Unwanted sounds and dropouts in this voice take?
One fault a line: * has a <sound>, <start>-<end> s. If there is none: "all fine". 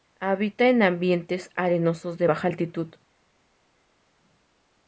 all fine